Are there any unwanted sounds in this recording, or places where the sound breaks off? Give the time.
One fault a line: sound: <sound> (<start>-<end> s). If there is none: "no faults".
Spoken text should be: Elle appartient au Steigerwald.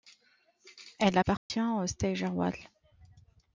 sound: dropout (1.4-1.5 s)